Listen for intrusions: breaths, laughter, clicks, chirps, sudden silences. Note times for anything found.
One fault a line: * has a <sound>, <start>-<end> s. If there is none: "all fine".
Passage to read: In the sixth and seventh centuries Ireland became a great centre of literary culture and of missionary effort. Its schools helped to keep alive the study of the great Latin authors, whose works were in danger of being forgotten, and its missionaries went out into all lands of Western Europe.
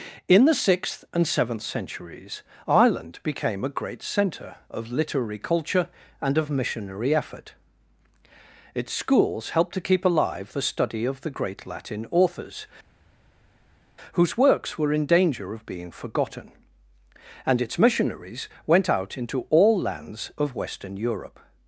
all fine